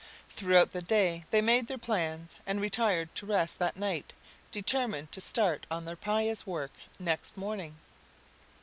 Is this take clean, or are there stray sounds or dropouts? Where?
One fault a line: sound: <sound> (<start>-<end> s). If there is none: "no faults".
no faults